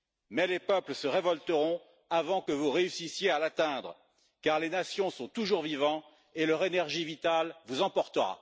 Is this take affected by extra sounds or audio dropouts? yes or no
no